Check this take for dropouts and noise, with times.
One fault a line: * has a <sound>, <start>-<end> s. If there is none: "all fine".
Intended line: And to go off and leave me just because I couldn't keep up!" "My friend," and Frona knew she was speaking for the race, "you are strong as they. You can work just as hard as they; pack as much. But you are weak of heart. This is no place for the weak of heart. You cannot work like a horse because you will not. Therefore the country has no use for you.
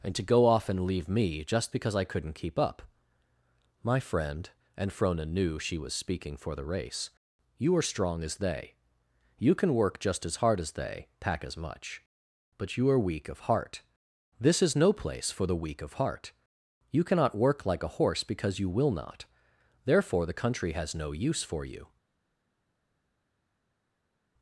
all fine